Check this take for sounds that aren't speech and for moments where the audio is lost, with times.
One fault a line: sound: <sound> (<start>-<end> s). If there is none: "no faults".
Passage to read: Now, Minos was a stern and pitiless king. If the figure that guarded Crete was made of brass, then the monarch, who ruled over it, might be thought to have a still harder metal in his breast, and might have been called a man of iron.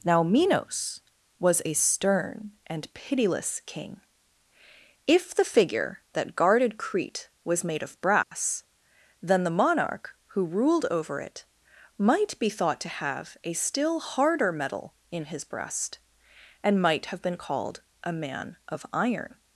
sound: dropout (8.2-8.3 s)